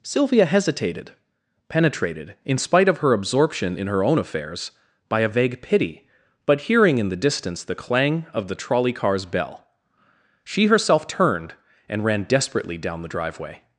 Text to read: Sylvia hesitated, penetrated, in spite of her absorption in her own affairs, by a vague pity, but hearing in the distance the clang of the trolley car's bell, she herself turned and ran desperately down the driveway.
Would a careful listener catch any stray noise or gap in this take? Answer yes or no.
no